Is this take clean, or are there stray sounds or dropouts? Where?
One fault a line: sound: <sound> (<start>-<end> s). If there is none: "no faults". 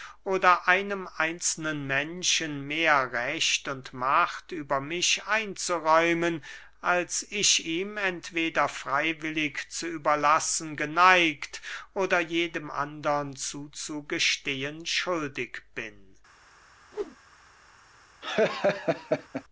sound: whoosh (16.9-17.2 s)
sound: laugh (18.2-19.4 s)